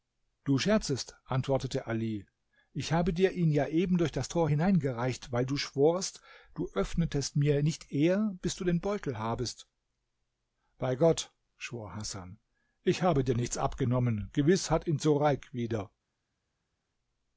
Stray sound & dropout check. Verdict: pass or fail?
pass